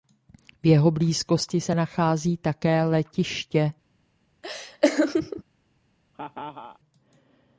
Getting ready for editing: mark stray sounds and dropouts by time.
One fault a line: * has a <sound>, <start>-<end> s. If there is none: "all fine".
* has a laugh, 4.4-5.4 s
* has a laugh, 6.1-6.8 s